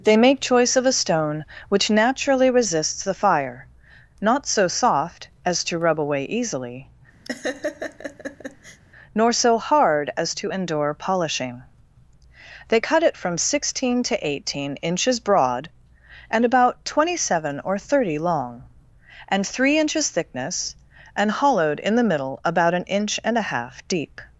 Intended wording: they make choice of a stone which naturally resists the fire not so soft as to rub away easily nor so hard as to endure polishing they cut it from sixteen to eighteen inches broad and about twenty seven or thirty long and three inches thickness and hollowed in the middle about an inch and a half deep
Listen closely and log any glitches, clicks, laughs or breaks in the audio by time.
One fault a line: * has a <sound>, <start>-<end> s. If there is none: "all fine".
* has a laugh, 7.2-8.8 s